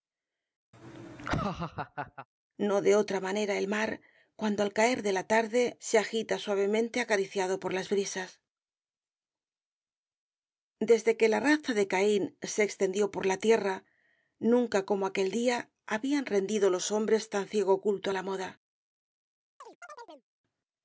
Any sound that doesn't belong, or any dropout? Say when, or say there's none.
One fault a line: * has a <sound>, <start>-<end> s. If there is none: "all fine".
* has a laugh, 0.7-2.3 s
* has a chirp, 19.6-20.3 s